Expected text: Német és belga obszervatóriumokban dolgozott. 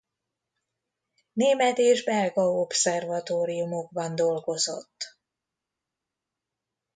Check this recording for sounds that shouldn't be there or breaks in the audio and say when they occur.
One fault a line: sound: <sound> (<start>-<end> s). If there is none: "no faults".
no faults